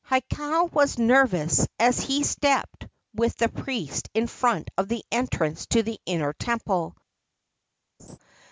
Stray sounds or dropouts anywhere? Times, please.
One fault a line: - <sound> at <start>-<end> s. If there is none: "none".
- laugh at 8.0-8.2 s